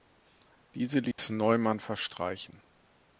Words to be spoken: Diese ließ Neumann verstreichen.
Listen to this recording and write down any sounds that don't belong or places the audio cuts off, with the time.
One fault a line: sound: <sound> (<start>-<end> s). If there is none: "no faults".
sound: dropout (1.1-1.2 s)